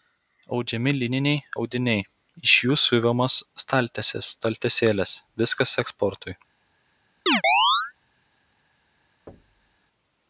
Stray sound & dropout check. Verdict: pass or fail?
fail